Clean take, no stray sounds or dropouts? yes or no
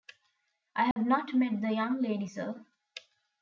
no